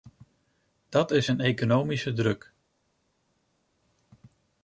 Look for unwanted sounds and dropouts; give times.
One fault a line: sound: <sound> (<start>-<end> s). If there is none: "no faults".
no faults